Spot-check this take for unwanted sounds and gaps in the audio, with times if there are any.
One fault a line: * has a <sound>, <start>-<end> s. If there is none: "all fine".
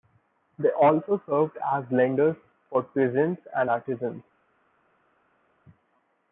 all fine